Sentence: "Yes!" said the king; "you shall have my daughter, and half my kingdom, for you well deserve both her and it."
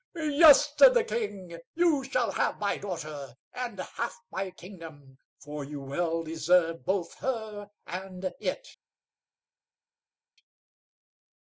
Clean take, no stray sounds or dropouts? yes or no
yes